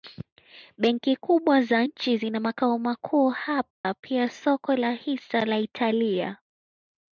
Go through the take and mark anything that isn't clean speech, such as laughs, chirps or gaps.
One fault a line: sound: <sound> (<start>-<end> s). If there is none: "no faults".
sound: dropout (3.7-3.8 s)